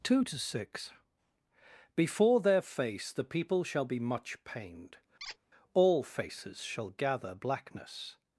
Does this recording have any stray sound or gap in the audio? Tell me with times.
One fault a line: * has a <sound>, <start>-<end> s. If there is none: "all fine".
* has a squeak, 5.2-5.4 s